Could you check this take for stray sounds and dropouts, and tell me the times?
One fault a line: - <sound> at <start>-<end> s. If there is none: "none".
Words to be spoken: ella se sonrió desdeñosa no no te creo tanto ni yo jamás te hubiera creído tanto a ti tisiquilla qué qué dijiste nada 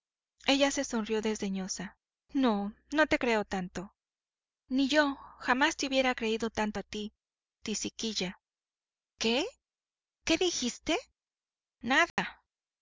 - dropout at 12.1-12.2 s